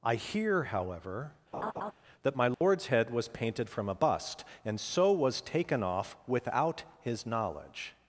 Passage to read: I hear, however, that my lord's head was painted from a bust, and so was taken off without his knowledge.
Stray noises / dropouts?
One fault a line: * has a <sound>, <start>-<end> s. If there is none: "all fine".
* has a laugh, 1.5-1.9 s
* has a dropout, 2.5-2.6 s